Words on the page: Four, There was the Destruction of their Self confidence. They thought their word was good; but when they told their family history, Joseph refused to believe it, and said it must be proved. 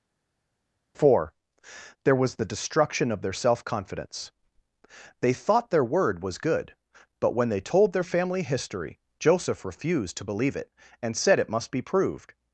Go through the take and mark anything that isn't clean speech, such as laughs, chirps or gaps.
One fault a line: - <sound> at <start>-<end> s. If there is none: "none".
none